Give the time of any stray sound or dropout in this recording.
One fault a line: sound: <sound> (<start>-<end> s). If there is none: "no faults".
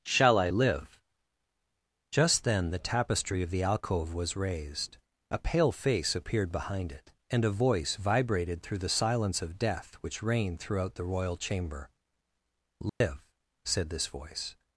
sound: dropout (12.9-13.0 s)